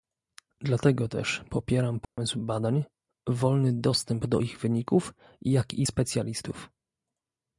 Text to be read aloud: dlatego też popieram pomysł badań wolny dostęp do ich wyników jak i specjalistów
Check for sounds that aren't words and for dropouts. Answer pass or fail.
fail